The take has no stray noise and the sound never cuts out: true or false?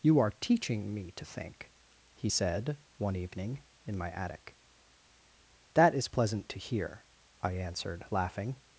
true